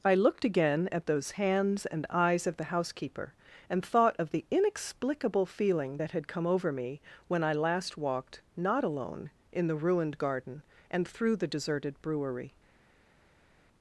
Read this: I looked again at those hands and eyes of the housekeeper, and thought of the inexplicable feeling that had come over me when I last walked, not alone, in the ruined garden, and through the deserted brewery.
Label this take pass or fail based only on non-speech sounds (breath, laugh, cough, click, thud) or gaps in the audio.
pass